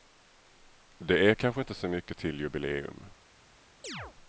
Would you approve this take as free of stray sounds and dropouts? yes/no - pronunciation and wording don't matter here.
no